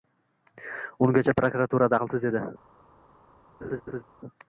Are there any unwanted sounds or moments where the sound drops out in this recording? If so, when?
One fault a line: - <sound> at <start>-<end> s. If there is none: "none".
- laugh at 3.6-4.0 s